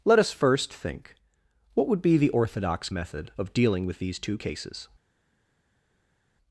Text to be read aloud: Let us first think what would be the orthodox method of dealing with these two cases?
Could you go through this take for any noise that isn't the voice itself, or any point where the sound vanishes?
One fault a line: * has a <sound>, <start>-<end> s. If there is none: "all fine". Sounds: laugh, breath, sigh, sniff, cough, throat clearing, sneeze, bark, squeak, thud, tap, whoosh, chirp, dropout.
all fine